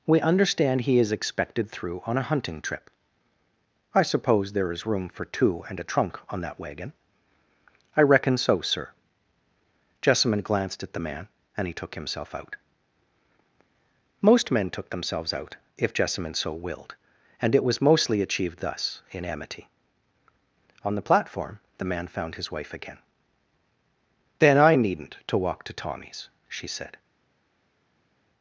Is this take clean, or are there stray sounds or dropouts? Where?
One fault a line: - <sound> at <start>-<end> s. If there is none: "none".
none